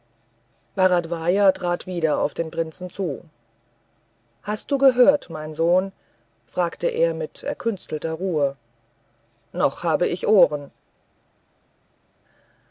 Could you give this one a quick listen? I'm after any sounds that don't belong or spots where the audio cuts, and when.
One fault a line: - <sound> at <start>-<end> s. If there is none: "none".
none